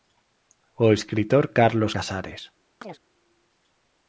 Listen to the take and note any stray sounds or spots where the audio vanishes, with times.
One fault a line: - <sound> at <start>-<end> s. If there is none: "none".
- chirp at 2.8-3.0 s